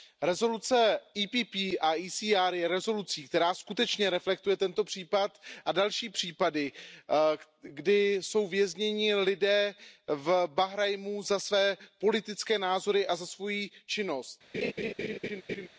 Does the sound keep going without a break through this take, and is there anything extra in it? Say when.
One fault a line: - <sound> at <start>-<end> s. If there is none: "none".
- laugh at 14.5-15.7 s